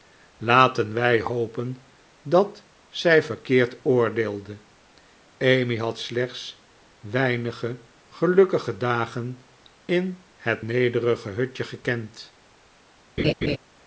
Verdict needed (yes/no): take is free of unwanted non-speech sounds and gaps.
no